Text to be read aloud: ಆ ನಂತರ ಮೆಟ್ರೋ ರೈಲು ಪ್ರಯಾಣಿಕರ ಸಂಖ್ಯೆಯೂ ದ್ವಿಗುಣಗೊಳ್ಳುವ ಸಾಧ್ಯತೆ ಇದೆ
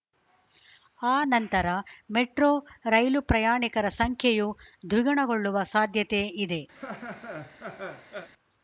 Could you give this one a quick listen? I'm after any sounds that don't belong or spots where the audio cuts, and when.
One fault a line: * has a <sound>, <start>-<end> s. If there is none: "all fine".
* has a laugh, 6.7-8.3 s